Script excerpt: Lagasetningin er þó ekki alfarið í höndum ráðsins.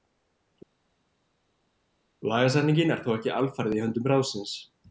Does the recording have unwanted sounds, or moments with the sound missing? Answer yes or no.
no